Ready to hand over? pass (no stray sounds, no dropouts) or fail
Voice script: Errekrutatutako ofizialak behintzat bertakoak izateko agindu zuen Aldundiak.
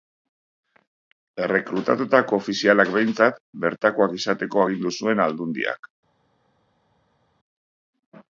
pass